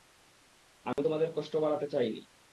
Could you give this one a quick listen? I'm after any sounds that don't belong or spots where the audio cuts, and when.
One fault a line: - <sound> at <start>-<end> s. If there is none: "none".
- dropout at 0.9-1.0 s